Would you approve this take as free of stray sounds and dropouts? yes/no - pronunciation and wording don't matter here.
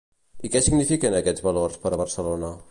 yes